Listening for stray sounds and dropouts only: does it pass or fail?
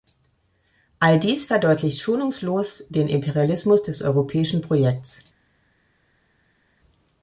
pass